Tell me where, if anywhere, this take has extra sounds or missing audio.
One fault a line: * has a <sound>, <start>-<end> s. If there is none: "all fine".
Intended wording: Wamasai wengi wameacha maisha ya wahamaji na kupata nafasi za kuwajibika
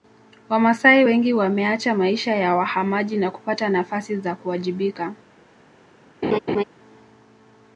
* has a laugh, 6.2-6.6 s